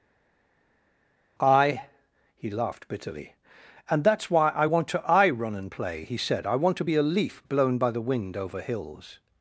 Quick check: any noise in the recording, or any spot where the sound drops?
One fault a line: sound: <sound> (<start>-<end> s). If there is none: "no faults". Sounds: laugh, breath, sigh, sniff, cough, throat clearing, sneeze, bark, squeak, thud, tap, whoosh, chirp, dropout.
no faults